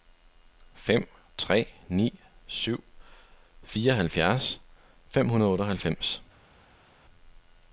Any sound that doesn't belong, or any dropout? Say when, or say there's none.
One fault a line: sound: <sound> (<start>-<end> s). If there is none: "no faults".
no faults